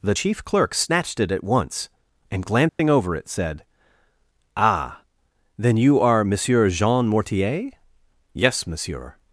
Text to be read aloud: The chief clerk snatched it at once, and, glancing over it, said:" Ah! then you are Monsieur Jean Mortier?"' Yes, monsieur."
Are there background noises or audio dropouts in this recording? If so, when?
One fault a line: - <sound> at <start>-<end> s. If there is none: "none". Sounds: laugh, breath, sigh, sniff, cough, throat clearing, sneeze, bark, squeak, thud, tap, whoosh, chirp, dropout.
- dropout at 2.7-2.8 s